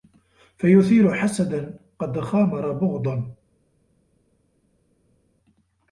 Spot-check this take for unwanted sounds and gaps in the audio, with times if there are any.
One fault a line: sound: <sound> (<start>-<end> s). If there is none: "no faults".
no faults